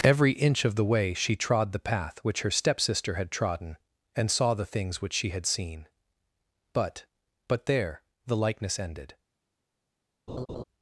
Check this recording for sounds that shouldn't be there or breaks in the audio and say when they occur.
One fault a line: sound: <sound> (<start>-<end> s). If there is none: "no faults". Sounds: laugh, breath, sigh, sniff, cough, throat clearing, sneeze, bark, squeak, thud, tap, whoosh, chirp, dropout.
sound: laugh (10.3-10.6 s)